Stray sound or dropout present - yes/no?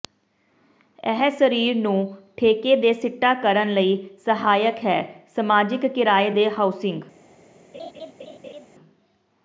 yes